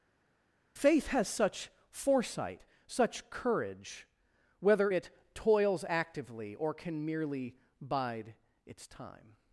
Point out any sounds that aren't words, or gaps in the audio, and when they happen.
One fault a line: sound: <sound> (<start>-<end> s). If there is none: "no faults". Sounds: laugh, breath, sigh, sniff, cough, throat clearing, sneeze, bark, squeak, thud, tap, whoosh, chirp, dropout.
no faults